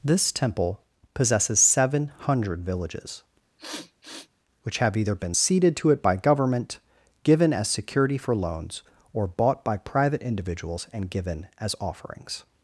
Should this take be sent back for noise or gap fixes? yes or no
yes